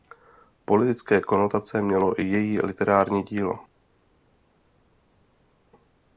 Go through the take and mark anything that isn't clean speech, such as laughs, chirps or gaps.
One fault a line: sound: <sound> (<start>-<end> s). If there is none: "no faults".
no faults